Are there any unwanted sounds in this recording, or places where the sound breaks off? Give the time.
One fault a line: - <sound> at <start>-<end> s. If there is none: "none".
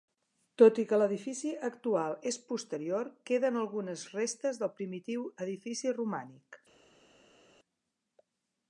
none